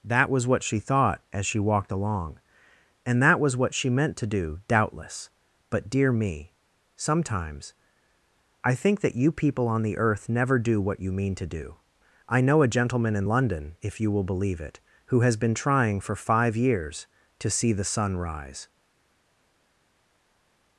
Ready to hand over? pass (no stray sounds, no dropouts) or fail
pass